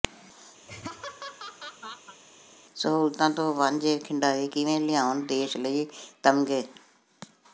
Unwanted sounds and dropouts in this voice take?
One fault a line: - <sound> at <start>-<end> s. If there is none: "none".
- laugh at 0.6-2.2 s